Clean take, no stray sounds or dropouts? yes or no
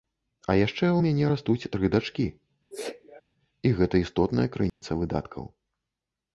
no